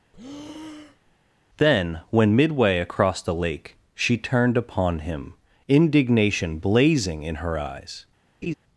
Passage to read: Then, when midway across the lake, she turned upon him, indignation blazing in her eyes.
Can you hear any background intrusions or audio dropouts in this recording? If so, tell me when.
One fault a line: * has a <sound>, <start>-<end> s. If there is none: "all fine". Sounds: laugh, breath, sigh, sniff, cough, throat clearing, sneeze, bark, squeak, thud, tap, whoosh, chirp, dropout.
* has a breath, 0.1-1.2 s
* has a laugh, 8.4-8.5 s